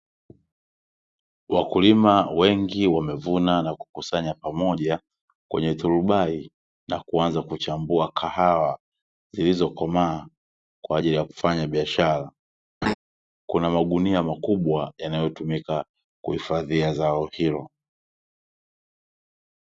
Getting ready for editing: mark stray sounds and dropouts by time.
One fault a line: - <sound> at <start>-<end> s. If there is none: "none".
- laugh at 12.8-12.9 s